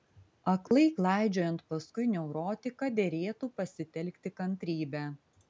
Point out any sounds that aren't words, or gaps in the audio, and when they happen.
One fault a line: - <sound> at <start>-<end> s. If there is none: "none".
- dropout at 0.7-0.7 s